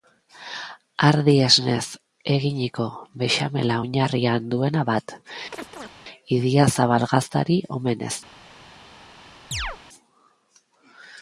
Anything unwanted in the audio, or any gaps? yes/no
yes